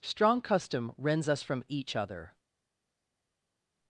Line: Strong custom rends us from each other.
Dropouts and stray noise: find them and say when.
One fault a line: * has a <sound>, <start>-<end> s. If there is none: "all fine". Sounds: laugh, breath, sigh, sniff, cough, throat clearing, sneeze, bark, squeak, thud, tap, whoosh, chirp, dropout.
all fine